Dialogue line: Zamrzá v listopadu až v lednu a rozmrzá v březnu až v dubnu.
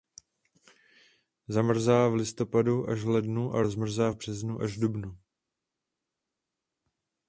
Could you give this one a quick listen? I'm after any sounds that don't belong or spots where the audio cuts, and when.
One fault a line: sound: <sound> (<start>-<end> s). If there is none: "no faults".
no faults